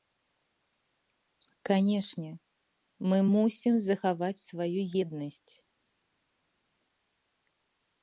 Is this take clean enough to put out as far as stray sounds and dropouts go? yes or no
yes